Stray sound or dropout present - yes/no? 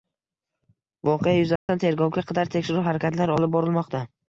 yes